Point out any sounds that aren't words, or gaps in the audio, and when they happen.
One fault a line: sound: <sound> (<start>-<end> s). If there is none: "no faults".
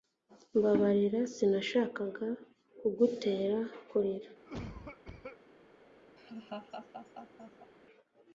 sound: cough (4.4-5.4 s)
sound: laugh (6.2-7.7 s)